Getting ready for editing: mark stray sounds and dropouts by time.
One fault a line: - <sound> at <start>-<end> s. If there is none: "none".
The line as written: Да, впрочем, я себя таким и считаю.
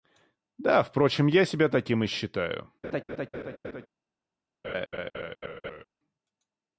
- laugh at 2.8-3.9 s
- laugh at 4.6-5.8 s